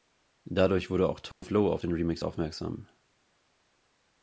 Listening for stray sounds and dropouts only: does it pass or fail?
fail